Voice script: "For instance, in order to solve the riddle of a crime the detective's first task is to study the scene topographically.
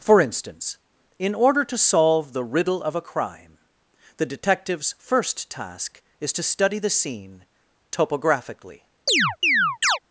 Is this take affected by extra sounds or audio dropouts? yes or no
yes